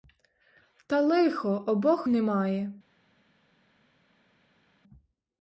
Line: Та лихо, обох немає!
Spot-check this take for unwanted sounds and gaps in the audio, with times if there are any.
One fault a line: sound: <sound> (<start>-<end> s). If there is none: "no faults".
no faults